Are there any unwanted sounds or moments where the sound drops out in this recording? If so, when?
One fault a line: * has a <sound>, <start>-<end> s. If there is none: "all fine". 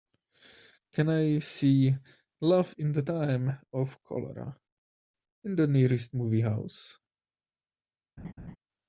* has a laugh, 8.2-8.6 s